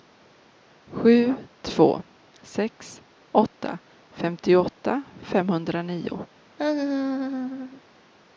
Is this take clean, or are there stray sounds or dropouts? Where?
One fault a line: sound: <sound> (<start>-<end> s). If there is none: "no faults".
sound: laugh (6.6-7.8 s)